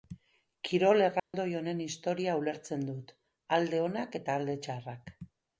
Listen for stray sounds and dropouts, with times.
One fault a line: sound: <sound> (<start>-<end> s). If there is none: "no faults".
sound: dropout (1.2-1.3 s)